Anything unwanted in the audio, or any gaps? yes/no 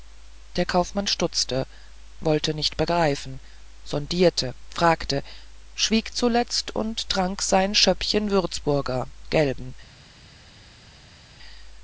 no